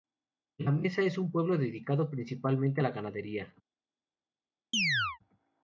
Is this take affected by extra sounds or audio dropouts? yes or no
yes